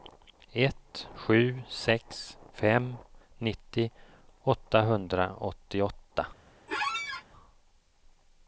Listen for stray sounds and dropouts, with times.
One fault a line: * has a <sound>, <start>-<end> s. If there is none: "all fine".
* has a squeak, 6.7-7.2 s